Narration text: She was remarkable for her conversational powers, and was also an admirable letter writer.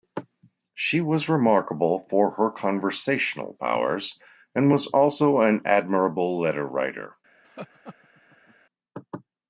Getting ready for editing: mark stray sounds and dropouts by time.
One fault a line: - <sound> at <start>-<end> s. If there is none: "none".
- laugh at 7.4-8.6 s